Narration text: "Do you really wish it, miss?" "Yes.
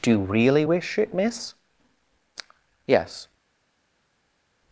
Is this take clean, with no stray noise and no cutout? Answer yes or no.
yes